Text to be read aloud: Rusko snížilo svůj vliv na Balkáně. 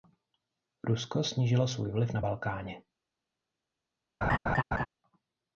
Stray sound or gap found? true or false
true